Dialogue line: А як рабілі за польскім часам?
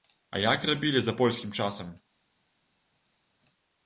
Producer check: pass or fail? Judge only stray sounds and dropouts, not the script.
pass